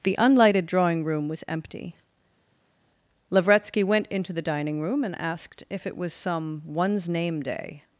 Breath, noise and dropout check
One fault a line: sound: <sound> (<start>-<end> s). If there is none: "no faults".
no faults